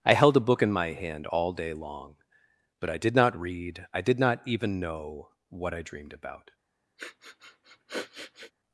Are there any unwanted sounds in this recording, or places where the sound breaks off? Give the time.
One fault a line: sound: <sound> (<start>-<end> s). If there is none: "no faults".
sound: sniff (7.0-8.5 s)